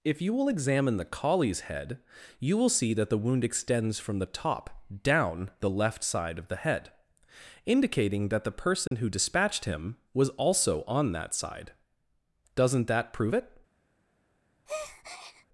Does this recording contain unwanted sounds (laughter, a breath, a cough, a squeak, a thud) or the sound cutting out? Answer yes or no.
yes